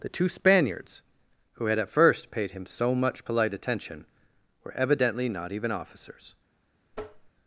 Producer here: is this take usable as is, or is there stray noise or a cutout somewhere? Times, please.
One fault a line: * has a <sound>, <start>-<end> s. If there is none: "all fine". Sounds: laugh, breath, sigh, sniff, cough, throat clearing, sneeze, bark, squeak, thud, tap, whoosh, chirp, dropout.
* has a tap, 6.9-7.3 s